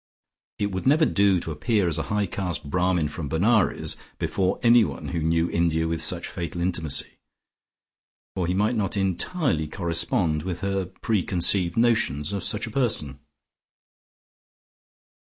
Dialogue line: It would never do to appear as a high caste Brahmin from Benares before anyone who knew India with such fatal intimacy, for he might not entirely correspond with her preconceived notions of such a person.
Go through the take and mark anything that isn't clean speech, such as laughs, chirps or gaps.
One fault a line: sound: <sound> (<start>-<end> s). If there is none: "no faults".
no faults